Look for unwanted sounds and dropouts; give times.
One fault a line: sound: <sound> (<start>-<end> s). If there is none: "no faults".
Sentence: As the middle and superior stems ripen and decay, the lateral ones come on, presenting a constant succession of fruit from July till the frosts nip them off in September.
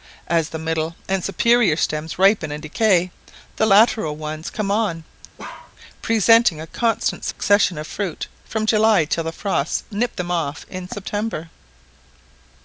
sound: bark (5.4-5.7 s)
sound: dropout (7.3-7.4 s)